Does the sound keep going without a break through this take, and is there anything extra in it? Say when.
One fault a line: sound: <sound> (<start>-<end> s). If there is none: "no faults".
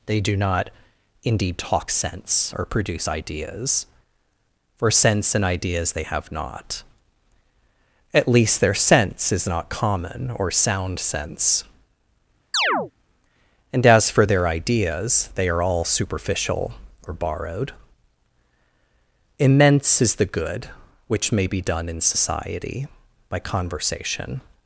sound: chirp (12.5-12.9 s)